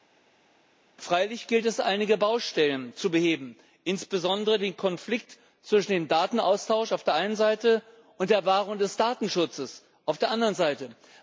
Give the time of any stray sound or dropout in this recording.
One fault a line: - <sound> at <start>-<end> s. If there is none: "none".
none